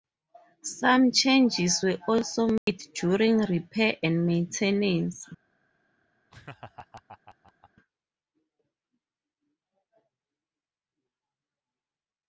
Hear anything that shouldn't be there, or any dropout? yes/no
yes